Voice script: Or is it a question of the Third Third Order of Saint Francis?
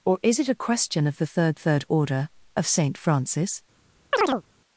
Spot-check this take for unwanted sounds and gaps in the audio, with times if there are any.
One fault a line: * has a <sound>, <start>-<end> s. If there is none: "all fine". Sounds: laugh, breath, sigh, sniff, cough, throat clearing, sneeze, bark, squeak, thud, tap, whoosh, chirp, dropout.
* has a chirp, 4.1-4.4 s